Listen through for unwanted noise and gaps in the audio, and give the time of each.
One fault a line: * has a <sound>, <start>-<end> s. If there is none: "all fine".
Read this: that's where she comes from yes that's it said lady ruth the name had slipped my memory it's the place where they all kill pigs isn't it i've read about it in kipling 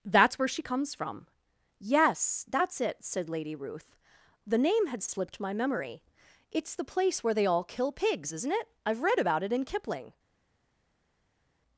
all fine